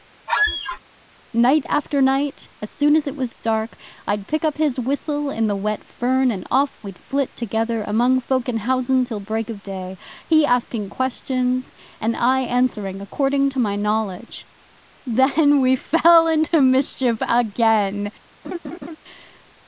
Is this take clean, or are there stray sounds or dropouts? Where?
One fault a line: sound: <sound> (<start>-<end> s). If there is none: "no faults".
sound: squeak (0.3-0.8 s)
sound: laugh (18.4-19.0 s)